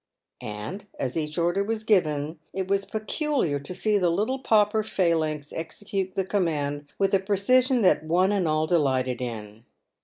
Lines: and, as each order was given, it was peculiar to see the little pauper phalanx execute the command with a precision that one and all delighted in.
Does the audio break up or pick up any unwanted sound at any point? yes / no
no